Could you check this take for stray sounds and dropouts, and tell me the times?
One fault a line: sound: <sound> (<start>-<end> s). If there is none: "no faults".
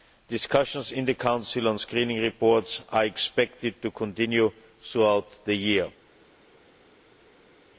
no faults